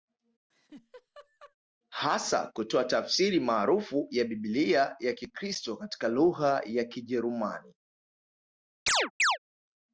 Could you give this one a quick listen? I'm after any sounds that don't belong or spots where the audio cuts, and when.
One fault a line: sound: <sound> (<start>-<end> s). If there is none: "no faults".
sound: laugh (0.5-1.6 s)
sound: chirp (8.9-9.4 s)